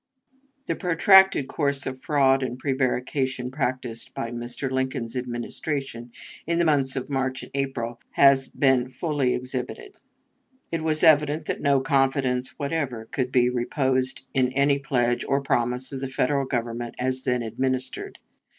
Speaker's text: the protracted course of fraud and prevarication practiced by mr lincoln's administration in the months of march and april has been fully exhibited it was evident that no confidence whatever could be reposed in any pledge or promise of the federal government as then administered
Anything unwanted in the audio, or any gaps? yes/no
no